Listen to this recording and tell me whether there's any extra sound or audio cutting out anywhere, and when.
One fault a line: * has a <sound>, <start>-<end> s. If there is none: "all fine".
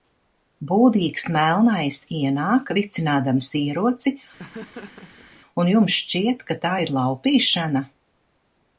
* has a laugh, 4.4-5.3 s